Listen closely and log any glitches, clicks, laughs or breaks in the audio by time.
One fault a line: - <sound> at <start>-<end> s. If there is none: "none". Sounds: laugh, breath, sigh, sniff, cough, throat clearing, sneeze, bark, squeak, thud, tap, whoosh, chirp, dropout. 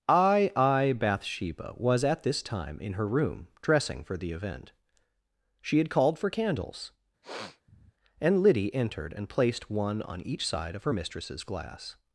- sniff at 7.2-7.9 s